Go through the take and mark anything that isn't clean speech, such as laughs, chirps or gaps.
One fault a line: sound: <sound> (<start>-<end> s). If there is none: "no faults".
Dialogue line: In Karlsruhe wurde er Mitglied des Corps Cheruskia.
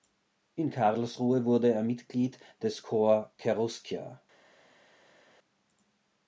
no faults